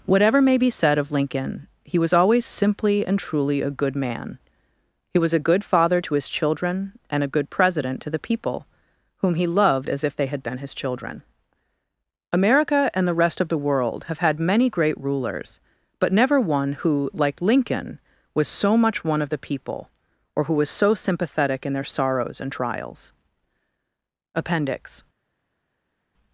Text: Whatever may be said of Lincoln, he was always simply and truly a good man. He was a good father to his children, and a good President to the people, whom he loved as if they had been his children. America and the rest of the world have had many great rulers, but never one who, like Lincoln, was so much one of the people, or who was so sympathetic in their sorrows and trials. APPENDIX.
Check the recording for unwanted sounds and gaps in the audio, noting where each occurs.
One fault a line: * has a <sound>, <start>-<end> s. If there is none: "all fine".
all fine